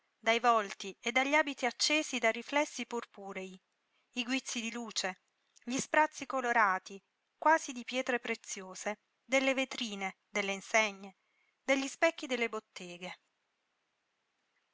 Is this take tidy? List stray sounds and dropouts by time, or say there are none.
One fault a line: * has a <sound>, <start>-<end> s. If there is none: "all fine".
all fine